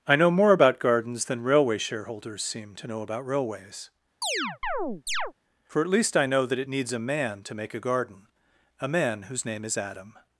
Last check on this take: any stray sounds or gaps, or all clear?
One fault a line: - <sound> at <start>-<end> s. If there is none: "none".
- chirp at 4.2-5.3 s